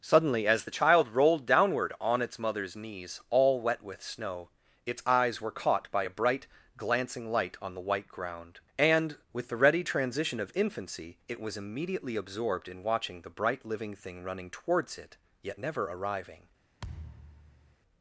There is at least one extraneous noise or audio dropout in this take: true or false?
true